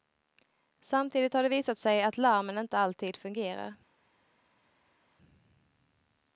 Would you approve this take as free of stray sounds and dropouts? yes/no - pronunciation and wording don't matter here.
yes